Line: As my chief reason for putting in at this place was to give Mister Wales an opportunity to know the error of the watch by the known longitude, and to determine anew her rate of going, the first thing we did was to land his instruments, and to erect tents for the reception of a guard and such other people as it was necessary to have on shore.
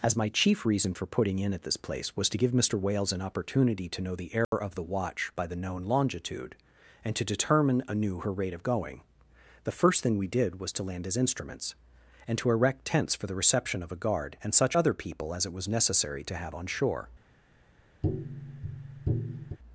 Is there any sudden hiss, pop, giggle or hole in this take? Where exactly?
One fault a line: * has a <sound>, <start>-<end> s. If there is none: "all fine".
* has a dropout, 4.4-4.5 s
* has a tap, 18.0-19.6 s